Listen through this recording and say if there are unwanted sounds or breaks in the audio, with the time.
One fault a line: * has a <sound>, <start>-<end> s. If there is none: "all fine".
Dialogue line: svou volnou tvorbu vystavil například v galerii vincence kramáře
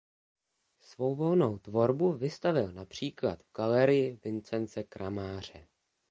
all fine